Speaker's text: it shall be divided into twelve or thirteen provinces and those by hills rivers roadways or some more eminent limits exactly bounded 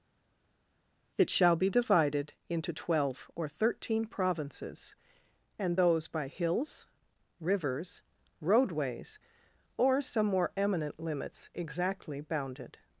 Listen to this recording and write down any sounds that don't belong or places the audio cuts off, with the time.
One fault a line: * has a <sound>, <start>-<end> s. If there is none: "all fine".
all fine